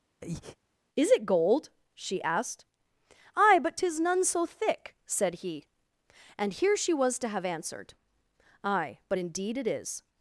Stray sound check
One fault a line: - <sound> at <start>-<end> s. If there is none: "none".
- breath at 0.2-0.6 s